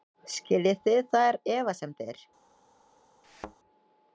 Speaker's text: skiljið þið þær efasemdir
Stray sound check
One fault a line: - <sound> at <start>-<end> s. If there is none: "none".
- thud at 3.2-3.6 s